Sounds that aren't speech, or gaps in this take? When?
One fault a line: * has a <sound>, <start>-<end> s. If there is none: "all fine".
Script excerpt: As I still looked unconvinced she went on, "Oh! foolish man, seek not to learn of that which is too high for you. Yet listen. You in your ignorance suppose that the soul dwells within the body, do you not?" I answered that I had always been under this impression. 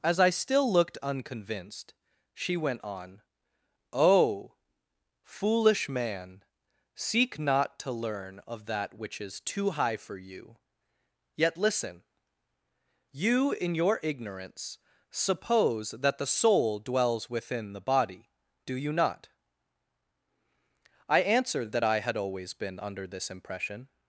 all fine